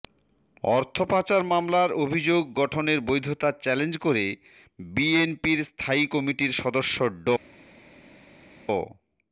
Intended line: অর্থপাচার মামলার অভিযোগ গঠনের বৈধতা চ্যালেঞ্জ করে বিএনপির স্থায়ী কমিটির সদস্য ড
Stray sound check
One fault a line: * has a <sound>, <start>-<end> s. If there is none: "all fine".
all fine